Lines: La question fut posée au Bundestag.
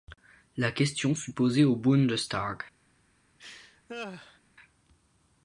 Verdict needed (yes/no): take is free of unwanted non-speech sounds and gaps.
no